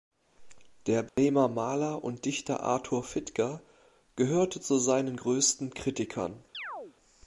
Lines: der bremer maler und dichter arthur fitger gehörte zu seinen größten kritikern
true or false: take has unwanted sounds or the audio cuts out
true